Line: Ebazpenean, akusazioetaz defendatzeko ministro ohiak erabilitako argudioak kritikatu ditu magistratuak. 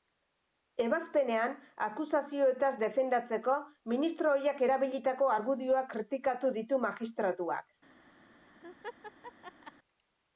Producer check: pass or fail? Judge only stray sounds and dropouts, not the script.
fail